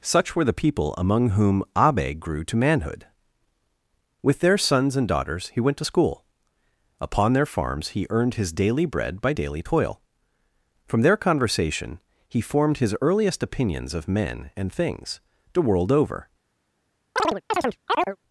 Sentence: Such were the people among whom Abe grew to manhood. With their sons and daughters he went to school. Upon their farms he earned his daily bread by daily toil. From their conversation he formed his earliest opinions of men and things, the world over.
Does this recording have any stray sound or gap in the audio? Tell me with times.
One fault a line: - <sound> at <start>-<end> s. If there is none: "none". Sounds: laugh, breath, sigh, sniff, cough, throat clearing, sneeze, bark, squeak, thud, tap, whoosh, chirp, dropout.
- chirp at 17.2-18.2 s